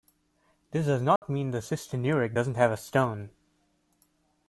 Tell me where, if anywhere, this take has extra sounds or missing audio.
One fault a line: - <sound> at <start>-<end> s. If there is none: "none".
- dropout at 1.2-1.2 s